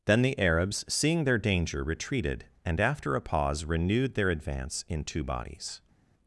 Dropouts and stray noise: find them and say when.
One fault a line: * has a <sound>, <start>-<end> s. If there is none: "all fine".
all fine